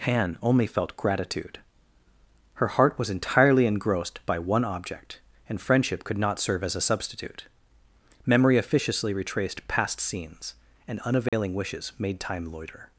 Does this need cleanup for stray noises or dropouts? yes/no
yes